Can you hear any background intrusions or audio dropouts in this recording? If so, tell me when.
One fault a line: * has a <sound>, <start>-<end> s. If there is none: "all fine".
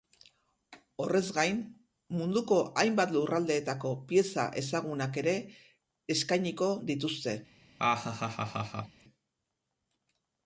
* has a laugh, 7.8-9.0 s